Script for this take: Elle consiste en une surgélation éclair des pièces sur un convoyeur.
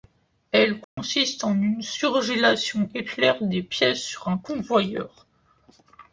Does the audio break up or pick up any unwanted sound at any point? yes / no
yes